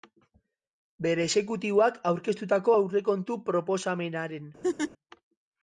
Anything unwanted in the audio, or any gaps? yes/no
yes